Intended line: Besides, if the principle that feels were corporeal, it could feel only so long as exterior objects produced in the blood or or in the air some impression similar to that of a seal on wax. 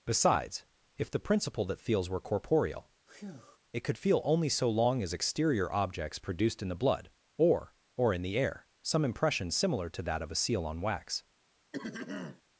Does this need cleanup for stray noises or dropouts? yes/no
yes